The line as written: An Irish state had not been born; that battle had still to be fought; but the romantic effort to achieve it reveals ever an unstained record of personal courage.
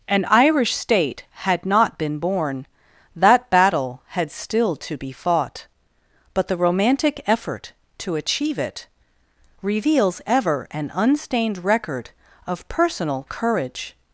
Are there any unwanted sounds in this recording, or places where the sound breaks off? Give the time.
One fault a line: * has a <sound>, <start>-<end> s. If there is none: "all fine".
all fine